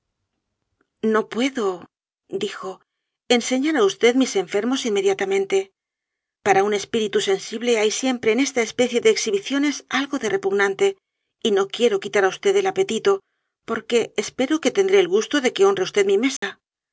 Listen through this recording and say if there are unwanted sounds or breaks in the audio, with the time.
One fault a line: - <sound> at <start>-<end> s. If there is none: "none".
- dropout at 16.4-16.4 s